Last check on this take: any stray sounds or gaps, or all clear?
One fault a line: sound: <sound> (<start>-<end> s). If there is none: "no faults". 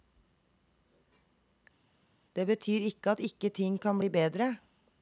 no faults